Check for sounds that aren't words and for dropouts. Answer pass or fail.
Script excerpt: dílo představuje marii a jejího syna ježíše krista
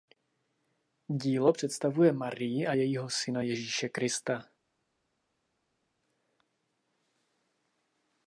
pass